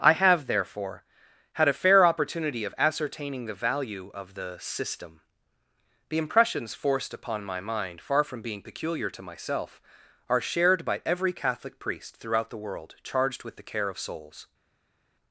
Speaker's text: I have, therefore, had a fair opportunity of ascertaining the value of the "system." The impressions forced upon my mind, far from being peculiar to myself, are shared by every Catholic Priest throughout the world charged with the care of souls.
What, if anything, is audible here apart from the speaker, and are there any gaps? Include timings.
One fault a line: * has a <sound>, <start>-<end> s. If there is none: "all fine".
all fine